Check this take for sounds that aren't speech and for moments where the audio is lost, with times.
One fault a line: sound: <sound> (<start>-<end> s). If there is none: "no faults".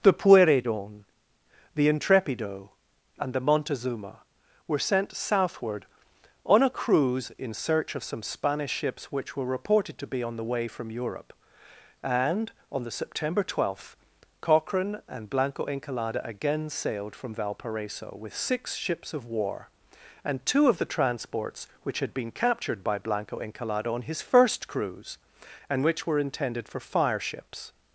no faults